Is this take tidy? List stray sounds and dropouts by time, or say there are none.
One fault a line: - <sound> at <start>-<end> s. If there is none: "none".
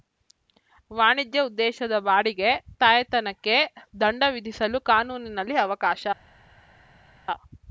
none